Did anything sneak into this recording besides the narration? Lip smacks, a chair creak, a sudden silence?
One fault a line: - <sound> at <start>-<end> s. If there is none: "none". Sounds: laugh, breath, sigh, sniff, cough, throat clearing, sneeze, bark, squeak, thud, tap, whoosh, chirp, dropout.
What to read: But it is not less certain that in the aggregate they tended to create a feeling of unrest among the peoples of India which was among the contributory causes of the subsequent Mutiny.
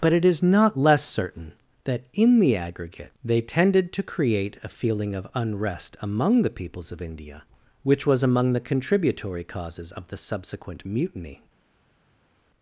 none